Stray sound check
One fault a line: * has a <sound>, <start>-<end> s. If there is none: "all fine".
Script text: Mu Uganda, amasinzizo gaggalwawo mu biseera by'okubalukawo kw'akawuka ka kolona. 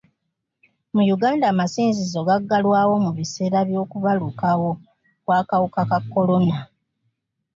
all fine